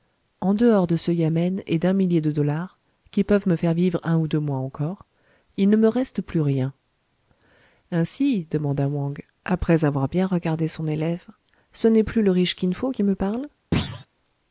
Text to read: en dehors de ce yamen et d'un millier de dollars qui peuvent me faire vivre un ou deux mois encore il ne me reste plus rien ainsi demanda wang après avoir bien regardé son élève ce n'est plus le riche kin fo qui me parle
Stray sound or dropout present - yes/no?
yes